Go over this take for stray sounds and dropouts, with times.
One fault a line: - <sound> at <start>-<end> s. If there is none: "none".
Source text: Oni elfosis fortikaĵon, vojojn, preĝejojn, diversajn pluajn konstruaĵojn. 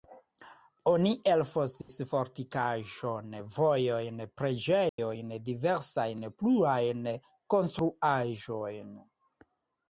- dropout at 1.8-1.9 s
- dropout at 4.9-5.0 s